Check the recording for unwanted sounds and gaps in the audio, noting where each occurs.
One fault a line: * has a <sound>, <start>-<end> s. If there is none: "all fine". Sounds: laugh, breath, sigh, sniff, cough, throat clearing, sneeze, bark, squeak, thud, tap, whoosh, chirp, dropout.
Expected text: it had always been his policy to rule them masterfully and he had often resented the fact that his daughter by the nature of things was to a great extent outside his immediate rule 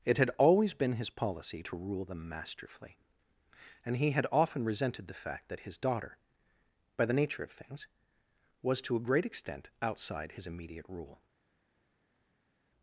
all fine